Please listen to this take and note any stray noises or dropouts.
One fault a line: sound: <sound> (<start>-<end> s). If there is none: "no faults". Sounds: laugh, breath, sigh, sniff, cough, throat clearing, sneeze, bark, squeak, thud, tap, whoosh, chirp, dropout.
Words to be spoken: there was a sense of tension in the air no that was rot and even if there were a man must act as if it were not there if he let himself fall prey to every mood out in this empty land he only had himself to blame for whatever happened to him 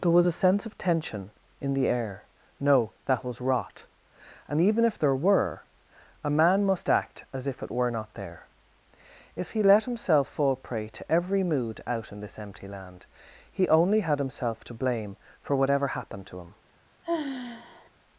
sound: sigh (17.0-17.9 s)